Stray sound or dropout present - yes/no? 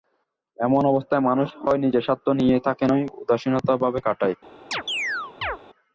yes